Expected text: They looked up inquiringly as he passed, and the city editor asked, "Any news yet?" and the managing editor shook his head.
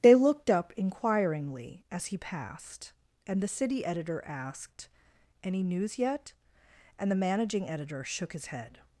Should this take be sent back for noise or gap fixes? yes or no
no